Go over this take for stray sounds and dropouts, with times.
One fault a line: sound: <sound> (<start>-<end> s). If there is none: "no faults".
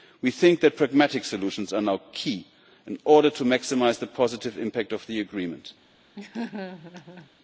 sound: laugh (6.2-7.3 s)